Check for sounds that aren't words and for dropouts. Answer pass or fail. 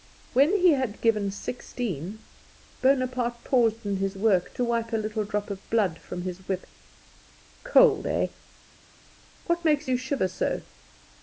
pass